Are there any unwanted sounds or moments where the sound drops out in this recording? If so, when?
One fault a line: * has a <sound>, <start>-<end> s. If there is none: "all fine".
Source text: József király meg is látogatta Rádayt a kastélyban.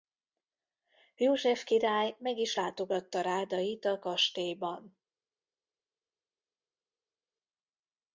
all fine